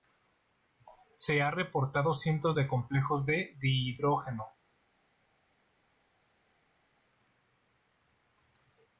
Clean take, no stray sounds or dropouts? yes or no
yes